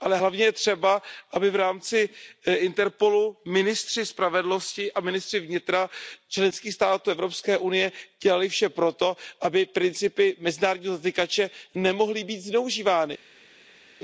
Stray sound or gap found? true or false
false